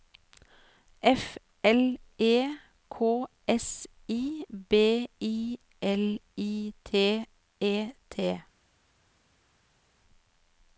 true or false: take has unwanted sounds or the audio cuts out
false